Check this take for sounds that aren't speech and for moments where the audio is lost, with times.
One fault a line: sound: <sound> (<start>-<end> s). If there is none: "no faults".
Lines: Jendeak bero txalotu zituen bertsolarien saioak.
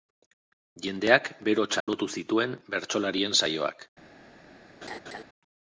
sound: dropout (1.8-1.9 s)
sound: laugh (4.8-5.2 s)